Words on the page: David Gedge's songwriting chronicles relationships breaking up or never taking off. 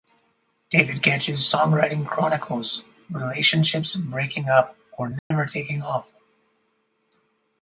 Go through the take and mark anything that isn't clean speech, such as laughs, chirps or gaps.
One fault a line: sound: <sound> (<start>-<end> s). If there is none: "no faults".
sound: dropout (5.2-5.3 s)